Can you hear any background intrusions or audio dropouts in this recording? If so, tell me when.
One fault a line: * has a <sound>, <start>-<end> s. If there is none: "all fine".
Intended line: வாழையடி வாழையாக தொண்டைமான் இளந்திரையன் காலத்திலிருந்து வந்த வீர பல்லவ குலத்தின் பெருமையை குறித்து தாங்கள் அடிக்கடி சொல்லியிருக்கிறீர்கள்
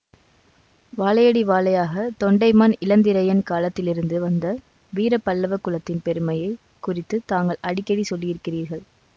all fine